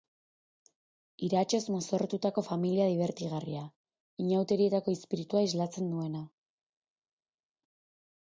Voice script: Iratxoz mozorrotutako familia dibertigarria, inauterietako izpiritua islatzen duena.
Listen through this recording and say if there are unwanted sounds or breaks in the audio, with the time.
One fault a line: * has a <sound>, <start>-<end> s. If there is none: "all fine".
all fine